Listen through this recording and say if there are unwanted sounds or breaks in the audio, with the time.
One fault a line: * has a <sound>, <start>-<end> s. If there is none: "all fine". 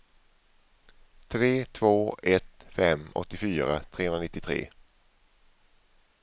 all fine